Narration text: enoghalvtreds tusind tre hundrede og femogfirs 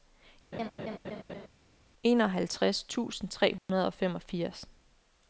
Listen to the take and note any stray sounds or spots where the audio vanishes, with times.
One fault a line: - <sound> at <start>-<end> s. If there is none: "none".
- laugh at 0.5-1.5 s
- dropout at 3.6-3.7 s